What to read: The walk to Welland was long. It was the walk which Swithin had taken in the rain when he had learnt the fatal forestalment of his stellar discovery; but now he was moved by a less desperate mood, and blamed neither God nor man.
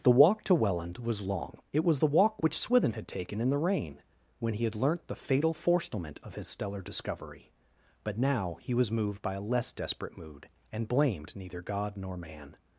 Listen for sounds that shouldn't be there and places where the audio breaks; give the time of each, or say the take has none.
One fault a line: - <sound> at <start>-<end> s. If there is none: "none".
none